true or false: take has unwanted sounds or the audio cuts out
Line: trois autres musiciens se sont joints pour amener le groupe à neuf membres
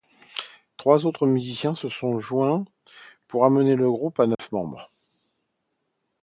true